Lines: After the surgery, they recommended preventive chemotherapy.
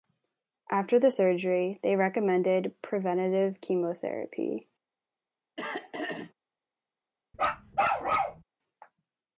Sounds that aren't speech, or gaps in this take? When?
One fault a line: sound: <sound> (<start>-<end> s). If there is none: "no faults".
sound: throat clearing (5.6-6.3 s)
sound: bark (7.3-8.4 s)